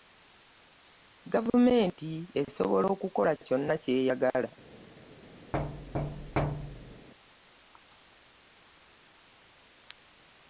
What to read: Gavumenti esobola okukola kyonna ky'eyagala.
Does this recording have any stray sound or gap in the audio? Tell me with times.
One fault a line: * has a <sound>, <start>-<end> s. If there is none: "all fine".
* has a thud, 5.5-7.1 s